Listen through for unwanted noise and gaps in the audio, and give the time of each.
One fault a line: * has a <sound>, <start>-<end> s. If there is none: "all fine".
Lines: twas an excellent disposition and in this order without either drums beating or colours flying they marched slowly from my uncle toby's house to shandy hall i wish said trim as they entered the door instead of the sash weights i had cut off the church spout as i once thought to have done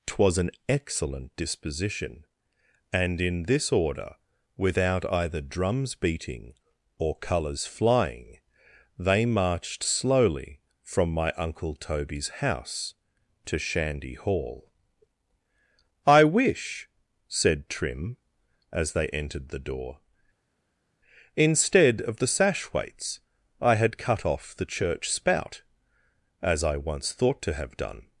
all fine